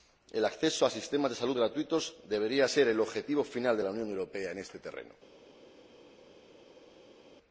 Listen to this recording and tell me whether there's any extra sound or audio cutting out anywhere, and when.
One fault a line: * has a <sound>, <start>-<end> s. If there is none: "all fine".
all fine